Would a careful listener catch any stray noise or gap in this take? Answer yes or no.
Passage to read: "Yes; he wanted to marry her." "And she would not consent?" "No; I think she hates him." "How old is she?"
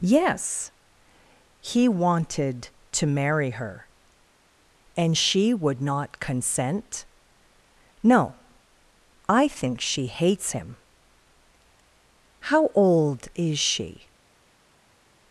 no